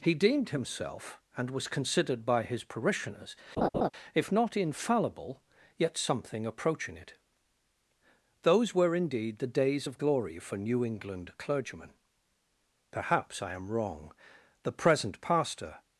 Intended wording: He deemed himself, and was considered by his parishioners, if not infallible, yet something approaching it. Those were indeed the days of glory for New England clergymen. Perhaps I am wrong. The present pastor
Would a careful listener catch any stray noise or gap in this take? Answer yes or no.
yes